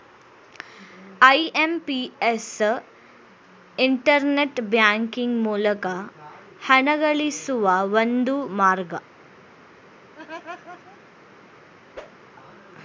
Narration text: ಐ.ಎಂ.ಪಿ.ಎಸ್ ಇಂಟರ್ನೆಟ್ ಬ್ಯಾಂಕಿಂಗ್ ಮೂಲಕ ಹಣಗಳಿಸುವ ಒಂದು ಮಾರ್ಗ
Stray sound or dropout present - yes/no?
yes